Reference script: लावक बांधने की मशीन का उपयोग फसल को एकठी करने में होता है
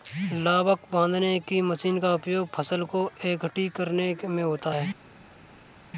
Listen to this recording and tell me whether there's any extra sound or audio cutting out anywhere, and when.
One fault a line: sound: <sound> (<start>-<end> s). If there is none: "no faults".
no faults